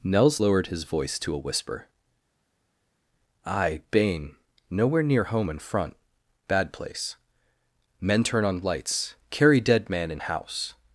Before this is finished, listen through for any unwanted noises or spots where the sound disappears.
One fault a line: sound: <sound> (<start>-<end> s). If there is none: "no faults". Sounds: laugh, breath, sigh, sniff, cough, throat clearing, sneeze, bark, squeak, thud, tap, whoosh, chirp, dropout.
no faults